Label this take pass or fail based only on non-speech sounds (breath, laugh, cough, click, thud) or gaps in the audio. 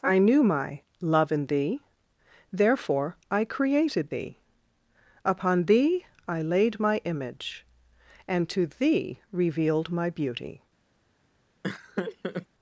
fail